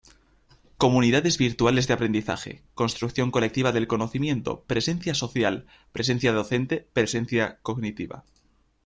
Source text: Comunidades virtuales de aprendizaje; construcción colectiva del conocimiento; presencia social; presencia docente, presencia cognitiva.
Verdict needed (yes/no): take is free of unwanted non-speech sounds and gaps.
yes